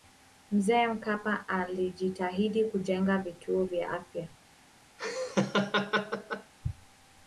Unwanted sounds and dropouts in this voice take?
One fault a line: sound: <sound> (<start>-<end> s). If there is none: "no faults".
sound: laugh (5.0-6.5 s)